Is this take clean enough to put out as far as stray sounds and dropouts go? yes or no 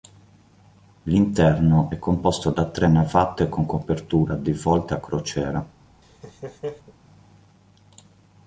no